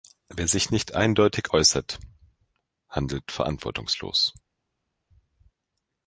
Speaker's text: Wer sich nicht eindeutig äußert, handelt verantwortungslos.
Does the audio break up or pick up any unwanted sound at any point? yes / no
no